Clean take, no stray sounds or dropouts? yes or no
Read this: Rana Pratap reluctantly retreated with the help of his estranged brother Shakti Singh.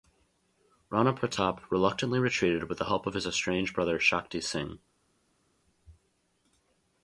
yes